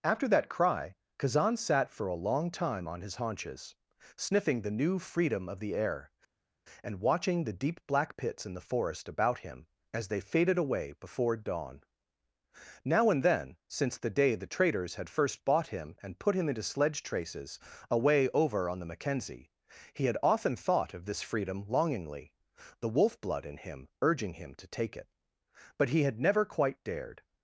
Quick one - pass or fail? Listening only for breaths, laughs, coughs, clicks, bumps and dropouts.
pass